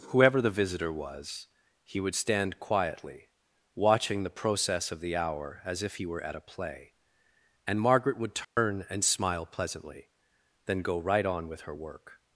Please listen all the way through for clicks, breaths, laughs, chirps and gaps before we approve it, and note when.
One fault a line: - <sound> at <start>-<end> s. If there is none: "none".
- dropout at 8.4-8.6 s